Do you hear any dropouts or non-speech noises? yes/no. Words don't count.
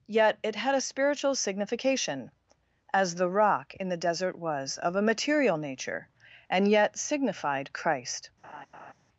yes